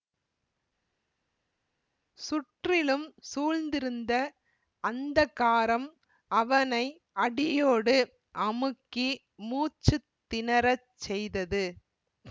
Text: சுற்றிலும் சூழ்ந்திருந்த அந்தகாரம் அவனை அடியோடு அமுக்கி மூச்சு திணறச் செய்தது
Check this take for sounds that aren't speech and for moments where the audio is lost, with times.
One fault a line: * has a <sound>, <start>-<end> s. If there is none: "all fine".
all fine